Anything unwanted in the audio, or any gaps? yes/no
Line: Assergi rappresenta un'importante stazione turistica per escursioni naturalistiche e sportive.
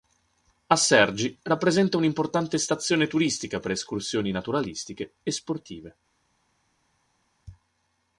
no